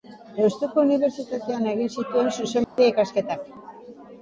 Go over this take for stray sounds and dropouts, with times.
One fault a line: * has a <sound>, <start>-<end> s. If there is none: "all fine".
* has a dropout, 2.6-2.8 s